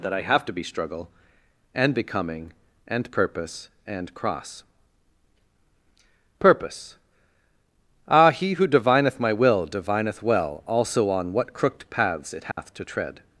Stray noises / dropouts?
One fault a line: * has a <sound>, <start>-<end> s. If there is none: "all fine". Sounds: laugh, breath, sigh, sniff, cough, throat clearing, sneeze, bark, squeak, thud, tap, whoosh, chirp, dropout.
* has a dropout, 12.5-12.6 s